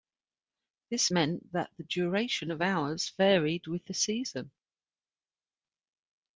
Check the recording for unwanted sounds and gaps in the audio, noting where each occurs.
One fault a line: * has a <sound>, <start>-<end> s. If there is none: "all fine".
all fine